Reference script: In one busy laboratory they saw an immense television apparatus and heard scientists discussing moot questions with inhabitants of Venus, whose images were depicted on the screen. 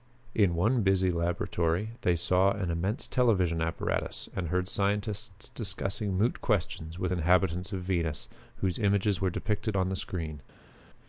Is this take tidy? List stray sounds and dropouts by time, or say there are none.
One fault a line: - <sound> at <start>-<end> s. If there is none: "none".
none